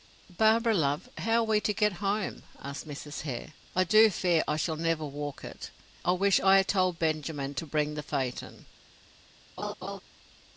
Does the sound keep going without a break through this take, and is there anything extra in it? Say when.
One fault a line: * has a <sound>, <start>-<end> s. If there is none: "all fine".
* has a laugh, 9.6-10.0 s